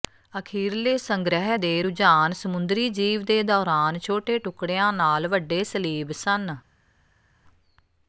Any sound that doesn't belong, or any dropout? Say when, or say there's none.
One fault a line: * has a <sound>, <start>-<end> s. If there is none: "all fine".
all fine